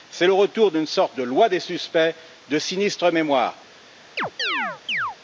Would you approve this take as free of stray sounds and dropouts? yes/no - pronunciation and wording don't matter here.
no